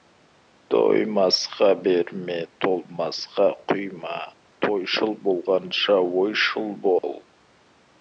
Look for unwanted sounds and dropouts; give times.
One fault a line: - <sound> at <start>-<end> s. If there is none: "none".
- dropout at 7.0-7.0 s